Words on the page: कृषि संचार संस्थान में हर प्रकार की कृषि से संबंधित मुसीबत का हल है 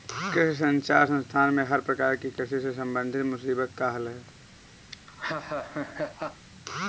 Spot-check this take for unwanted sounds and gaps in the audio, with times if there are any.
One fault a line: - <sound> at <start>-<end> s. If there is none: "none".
- laugh at 4.9-6.5 s